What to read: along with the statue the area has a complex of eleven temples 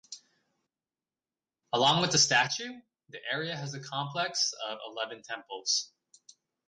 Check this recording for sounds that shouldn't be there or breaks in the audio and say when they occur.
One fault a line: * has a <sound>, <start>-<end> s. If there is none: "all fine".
all fine